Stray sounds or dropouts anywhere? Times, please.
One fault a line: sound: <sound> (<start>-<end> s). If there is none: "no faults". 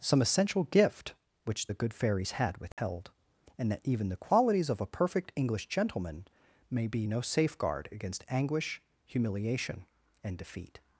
sound: dropout (2.7-2.8 s)